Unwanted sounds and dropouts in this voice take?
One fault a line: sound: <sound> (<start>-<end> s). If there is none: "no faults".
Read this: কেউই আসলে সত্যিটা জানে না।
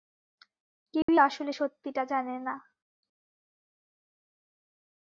sound: dropout (1.0-1.1 s)